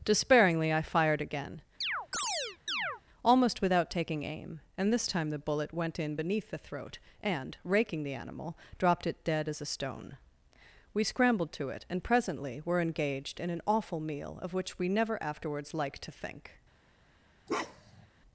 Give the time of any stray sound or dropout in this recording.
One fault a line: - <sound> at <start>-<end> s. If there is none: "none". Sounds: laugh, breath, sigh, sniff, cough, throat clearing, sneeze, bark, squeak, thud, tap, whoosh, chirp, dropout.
- chirp at 1.8-3.0 s
- bark at 17.5-18.1 s